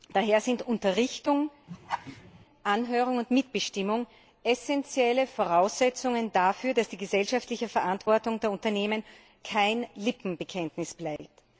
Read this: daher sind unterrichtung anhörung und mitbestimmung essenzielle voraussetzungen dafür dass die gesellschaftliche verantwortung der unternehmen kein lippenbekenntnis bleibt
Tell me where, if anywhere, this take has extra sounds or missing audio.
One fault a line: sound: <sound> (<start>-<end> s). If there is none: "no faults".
sound: laugh (1.7-2.5 s)
sound: dropout (11.2-11.2 s)